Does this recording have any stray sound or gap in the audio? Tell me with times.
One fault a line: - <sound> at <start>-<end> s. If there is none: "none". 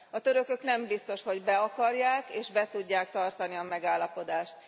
none